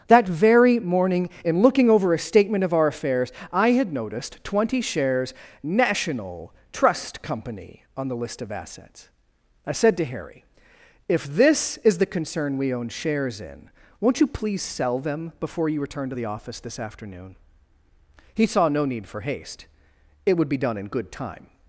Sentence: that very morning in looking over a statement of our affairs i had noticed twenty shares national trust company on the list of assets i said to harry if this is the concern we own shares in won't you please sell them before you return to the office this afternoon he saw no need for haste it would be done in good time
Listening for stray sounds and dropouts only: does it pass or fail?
pass